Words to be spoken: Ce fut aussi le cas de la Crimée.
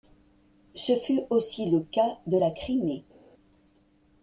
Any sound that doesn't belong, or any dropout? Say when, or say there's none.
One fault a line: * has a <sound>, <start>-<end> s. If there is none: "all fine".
all fine